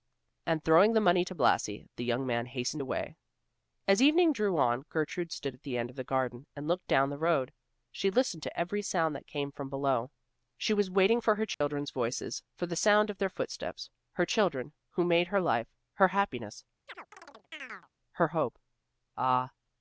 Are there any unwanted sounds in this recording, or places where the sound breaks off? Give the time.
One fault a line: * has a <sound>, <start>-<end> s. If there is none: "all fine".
* has a dropout, 11.5-11.6 s
* has a chirp, 16.9-17.9 s